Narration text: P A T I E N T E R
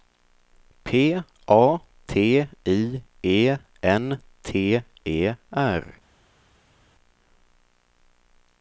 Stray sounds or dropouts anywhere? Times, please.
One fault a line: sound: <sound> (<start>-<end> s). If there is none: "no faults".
no faults